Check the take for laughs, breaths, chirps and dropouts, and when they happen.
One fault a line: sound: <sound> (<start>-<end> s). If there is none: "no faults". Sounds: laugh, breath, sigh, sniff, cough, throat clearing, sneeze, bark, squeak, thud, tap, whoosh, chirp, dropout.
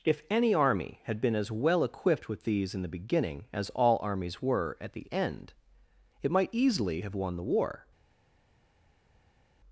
no faults